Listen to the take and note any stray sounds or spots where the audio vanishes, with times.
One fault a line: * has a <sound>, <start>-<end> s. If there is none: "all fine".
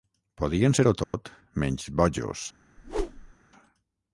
* has a dropout, 1.0-1.1 s
* has a whoosh, 2.8-3.3 s